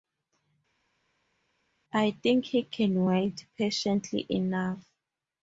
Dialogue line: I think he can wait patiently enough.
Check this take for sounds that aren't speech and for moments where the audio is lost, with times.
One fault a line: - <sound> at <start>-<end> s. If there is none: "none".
none